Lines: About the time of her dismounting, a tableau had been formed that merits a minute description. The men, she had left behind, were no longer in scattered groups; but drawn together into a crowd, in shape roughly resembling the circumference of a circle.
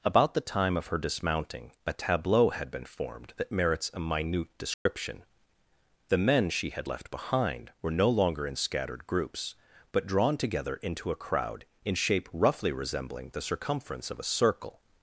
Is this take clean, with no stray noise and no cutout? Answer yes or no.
no